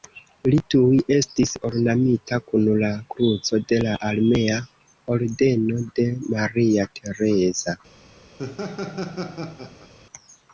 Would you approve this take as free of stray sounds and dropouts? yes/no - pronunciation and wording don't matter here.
no